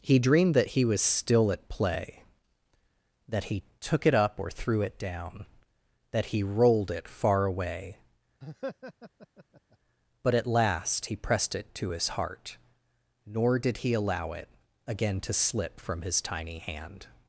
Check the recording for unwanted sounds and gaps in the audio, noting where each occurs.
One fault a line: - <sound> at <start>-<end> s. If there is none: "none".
- laugh at 8.4-9.8 s